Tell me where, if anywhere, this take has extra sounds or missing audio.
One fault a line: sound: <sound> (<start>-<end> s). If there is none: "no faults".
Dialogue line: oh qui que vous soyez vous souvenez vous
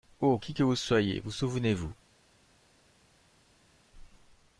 no faults